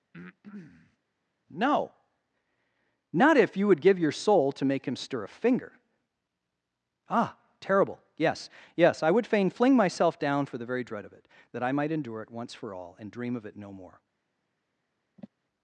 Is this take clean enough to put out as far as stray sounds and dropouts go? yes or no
no